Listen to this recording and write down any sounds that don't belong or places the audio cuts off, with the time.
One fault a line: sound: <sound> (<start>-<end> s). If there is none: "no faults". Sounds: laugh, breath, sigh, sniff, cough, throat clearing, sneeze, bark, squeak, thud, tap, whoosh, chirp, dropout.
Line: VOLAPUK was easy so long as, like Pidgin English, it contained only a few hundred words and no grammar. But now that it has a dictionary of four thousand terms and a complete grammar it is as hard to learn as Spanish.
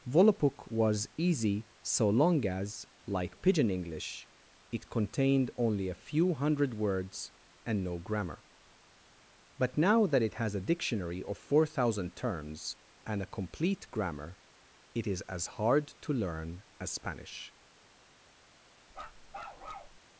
sound: bark (18.9-20.0 s)